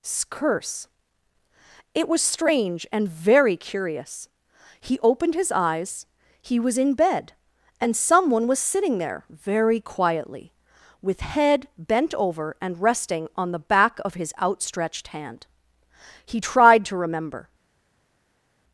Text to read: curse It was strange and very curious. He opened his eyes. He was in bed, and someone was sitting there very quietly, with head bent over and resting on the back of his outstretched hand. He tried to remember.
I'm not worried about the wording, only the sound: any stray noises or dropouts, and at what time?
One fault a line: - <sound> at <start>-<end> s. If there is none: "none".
none